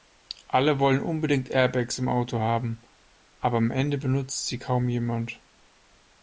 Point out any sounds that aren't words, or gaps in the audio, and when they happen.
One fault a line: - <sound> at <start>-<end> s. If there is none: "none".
none